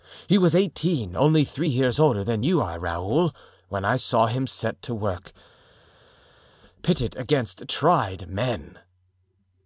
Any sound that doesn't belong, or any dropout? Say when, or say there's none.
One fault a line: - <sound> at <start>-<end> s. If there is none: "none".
none